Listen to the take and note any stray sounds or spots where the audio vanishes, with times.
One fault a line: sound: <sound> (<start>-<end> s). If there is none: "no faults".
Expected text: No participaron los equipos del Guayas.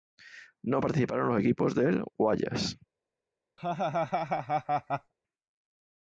sound: laugh (3.6-5.1 s)